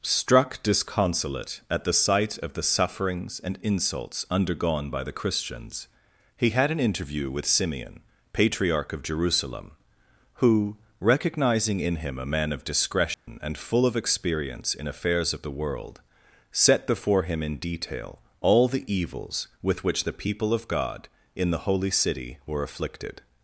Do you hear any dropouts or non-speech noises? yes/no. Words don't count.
yes